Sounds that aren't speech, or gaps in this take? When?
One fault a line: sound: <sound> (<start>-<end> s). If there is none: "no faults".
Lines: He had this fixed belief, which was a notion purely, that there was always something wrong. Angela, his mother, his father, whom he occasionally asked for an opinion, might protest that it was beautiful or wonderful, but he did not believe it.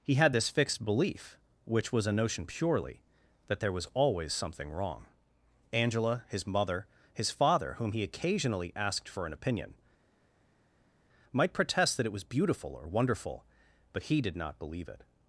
no faults